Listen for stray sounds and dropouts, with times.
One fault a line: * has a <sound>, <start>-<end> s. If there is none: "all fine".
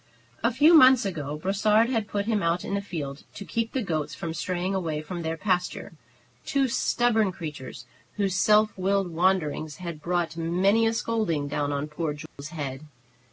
* has a dropout, 12.3-12.4 s